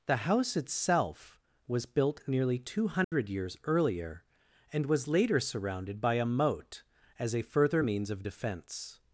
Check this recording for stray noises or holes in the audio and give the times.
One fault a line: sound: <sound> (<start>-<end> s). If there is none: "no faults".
sound: dropout (3.0-3.1 s)